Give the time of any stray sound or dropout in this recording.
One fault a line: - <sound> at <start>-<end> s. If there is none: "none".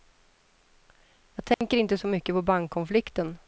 - dropout at 1.5-1.6 s